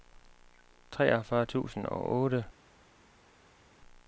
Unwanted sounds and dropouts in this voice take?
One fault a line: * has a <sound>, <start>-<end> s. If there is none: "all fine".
all fine